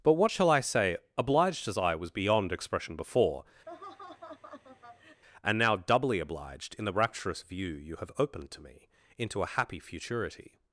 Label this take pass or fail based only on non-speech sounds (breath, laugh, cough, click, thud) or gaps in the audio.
fail